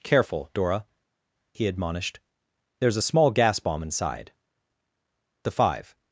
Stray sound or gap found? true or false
false